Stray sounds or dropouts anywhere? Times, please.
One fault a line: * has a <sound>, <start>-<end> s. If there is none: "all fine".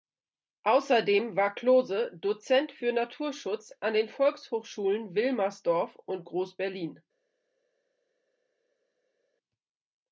all fine